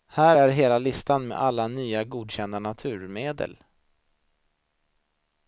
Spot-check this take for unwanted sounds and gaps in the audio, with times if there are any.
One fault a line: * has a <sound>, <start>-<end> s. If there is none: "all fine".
all fine